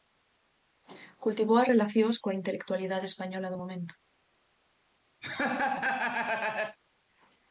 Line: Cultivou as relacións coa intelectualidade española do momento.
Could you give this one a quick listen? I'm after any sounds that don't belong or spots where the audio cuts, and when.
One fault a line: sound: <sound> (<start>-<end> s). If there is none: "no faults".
sound: laugh (5.2-6.8 s)